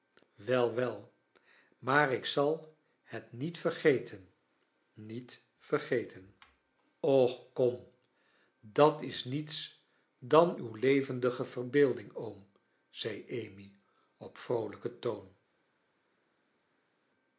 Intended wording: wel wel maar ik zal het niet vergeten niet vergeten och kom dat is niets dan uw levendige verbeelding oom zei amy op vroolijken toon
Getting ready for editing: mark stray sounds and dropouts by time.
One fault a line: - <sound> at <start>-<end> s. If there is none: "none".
none